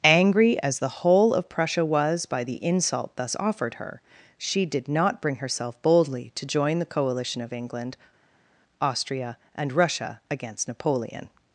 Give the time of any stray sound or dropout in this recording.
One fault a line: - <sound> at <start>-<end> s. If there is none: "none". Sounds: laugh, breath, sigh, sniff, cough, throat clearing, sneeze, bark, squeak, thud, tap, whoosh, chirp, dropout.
none